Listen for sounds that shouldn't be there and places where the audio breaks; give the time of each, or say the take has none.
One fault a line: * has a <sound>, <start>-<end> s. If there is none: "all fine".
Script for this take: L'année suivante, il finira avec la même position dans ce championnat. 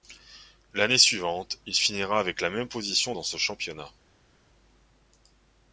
all fine